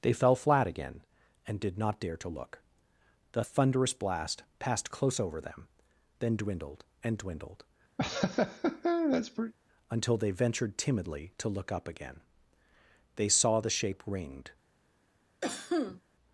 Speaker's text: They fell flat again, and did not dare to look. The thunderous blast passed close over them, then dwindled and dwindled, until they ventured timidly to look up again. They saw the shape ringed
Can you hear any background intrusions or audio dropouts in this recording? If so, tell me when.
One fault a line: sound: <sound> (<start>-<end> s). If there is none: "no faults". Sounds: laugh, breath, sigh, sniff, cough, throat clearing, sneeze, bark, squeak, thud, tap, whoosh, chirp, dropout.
sound: laugh (8.0-9.5 s)
sound: cough (15.4-16.0 s)